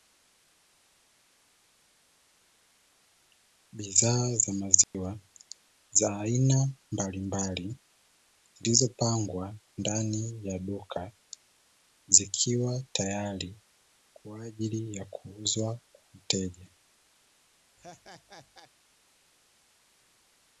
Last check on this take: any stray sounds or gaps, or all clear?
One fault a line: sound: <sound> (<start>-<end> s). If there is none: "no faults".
sound: dropout (4.8-4.9 s)
sound: laugh (17.8-18.7 s)